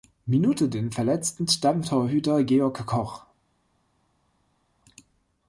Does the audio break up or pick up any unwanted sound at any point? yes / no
no